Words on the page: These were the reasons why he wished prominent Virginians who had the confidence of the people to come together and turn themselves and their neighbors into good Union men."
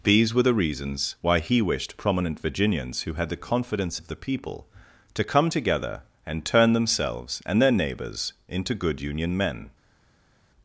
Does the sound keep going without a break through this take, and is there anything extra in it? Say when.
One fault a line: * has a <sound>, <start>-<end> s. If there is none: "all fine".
all fine